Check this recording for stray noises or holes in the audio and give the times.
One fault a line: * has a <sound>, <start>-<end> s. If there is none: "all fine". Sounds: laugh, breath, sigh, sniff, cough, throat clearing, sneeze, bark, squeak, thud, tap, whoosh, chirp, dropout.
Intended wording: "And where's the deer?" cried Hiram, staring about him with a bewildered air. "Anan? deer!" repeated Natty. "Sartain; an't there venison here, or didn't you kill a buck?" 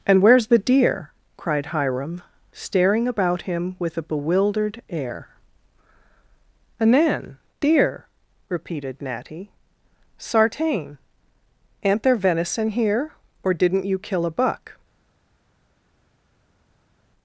all fine